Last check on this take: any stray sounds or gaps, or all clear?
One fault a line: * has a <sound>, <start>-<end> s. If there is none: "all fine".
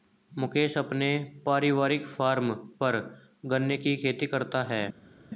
all fine